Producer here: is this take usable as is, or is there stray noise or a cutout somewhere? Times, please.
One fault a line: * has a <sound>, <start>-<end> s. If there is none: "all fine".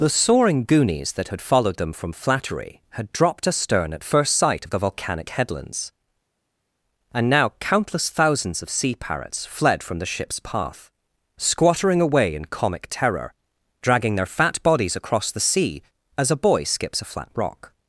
all fine